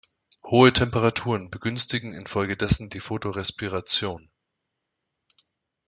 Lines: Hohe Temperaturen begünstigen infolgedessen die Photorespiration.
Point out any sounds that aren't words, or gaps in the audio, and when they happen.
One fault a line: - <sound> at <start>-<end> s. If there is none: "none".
none